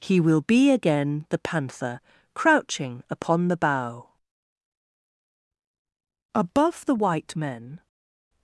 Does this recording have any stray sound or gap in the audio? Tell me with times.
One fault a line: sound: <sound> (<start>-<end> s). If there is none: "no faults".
no faults